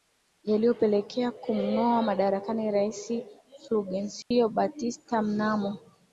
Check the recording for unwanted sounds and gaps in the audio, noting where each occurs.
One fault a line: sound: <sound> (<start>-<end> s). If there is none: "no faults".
sound: dropout (4.2-4.3 s)